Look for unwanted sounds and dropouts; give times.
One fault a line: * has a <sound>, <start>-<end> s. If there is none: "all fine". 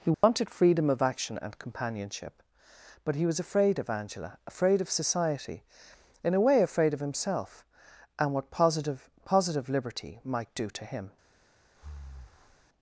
* has a dropout, 0.1-0.2 s
* has a breath, 11.7-12.7 s